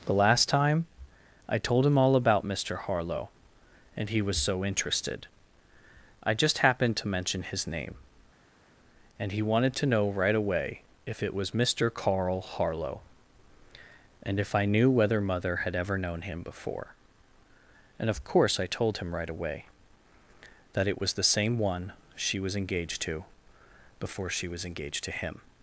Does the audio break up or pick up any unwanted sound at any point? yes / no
no